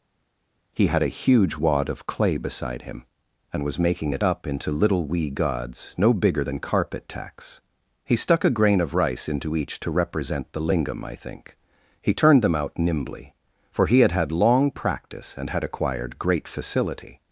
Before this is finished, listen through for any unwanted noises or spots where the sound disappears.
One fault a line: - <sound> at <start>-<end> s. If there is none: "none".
none